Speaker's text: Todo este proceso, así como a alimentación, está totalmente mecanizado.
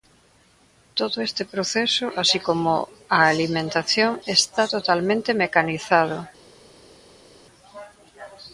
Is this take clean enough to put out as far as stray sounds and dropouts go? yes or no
yes